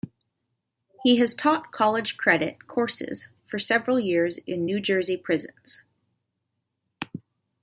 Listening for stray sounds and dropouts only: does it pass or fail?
pass